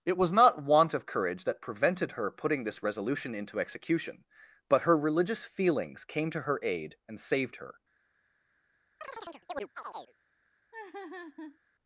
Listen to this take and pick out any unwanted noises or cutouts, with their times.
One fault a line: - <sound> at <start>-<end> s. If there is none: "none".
- chirp at 9.0-10.1 s
- laugh at 10.7-11.6 s